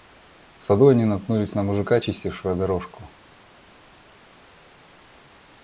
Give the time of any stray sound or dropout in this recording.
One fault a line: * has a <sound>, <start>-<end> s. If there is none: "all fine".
all fine